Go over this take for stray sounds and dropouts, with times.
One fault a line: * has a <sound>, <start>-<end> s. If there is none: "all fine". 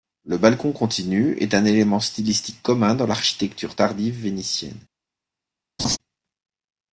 * has a laugh, 5.8-6.0 s